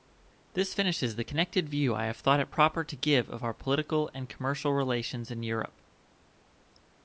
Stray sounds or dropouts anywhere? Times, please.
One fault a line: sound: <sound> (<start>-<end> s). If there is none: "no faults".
no faults